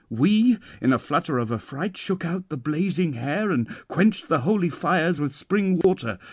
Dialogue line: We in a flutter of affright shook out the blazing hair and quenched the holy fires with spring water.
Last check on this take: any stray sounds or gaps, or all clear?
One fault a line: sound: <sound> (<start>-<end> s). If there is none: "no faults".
sound: dropout (5.8-5.8 s)